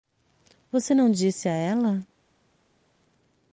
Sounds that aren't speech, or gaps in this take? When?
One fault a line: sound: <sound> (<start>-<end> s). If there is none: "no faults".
no faults